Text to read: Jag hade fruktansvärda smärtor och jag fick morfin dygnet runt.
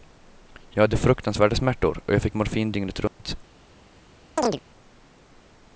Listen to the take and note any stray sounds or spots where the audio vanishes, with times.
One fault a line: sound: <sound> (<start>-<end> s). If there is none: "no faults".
sound: dropout (3.1-3.2 s)
sound: chirp (4.4-4.6 s)